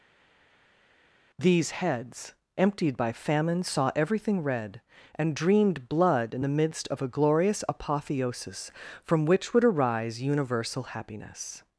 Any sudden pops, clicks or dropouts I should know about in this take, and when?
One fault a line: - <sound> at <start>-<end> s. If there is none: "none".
none